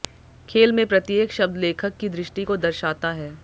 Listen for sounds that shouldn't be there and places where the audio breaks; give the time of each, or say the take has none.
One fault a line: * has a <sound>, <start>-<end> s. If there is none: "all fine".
all fine